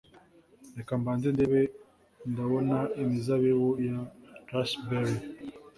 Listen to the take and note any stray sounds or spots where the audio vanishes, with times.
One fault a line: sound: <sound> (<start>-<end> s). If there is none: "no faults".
no faults